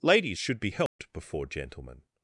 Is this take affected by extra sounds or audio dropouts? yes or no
yes